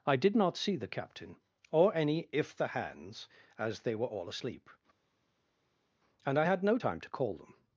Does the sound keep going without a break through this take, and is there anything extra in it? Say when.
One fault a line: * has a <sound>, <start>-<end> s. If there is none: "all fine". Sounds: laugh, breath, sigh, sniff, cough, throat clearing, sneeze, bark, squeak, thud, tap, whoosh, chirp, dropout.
all fine